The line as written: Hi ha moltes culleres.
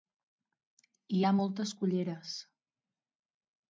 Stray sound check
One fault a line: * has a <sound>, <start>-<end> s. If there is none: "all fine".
all fine